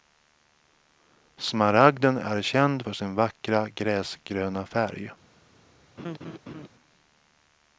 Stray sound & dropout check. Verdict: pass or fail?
fail